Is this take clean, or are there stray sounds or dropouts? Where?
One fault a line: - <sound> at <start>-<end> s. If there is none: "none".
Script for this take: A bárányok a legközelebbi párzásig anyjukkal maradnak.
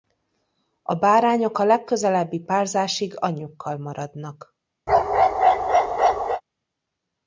- bark at 4.9-6.4 s